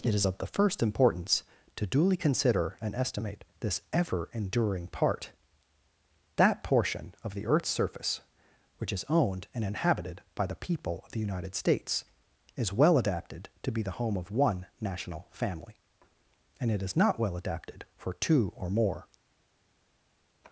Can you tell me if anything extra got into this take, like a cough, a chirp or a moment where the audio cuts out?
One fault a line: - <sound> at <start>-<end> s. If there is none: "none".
none